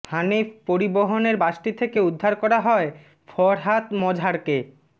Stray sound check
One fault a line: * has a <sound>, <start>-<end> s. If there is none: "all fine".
all fine